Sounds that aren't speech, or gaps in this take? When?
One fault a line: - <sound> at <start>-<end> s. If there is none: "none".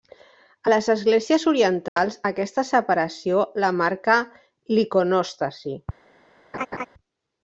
- dropout at 1.9-2.0 s
- laugh at 6.5-6.9 s